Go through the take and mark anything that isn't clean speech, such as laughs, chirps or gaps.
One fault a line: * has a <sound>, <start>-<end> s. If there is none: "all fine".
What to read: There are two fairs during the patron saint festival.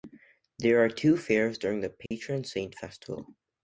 * has a dropout, 2.1-2.1 s